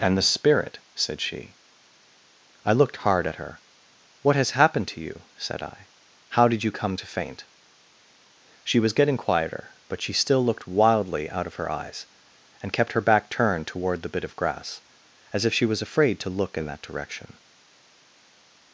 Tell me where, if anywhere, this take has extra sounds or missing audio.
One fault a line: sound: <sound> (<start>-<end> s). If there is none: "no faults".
no faults